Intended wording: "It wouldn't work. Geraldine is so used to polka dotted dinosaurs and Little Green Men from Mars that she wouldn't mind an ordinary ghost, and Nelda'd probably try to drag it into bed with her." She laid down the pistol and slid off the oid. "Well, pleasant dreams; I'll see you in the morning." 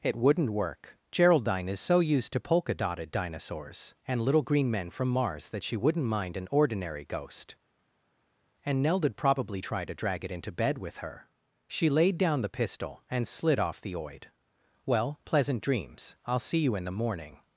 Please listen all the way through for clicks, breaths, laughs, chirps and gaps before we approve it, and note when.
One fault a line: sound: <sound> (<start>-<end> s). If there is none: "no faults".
no faults